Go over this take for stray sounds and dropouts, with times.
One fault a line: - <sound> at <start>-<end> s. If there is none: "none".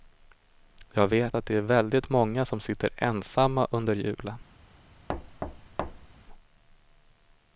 - thud at 5.1-6.1 s